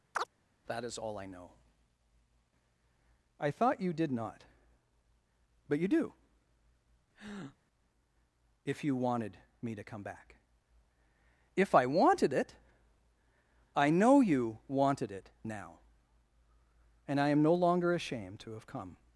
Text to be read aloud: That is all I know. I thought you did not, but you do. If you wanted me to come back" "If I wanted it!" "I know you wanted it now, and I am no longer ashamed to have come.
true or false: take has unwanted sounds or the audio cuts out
true